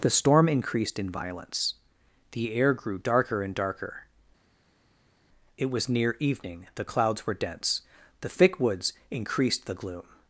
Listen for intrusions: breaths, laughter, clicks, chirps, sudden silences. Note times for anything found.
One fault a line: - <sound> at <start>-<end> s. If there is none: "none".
none